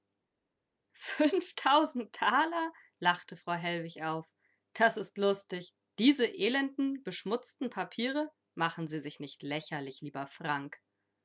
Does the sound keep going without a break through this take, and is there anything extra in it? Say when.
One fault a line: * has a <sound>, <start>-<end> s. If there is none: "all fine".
all fine